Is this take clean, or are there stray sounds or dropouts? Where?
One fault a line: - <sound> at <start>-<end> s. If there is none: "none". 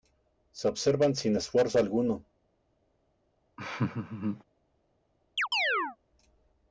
- laugh at 3.6-4.4 s
- chirp at 5.4-6.0 s